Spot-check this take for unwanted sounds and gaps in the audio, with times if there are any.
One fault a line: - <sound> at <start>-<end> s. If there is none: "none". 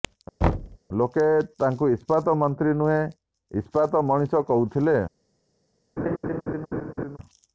- thud at 0.4-0.8 s
- laugh at 6.0-7.2 s